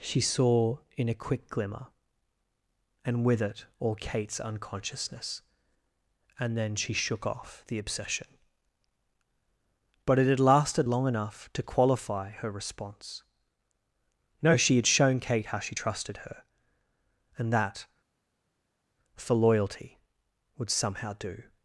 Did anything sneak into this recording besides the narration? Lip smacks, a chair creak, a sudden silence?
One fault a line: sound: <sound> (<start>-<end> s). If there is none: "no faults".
no faults